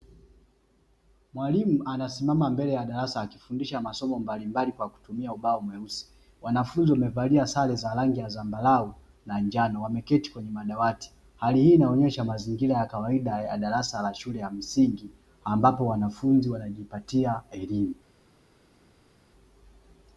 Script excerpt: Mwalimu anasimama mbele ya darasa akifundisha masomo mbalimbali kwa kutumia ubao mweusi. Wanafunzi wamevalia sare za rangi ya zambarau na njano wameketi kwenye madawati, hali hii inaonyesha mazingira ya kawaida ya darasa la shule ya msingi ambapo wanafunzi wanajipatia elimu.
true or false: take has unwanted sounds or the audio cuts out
false